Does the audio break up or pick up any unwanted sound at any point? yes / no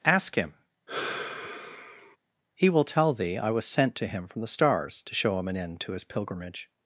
yes